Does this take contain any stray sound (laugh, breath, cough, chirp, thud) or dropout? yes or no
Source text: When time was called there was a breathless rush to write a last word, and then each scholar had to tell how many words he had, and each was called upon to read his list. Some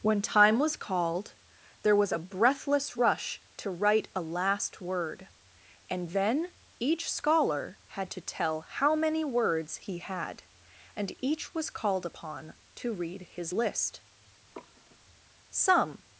yes